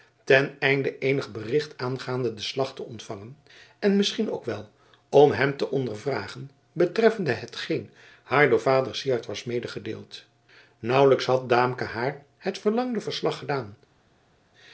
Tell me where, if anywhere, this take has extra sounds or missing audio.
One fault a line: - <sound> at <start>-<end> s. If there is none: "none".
none